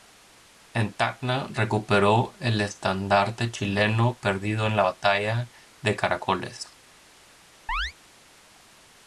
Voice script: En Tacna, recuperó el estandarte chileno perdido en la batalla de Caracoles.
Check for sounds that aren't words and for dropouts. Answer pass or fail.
fail